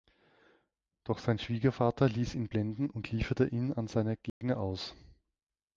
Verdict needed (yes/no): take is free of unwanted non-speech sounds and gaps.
no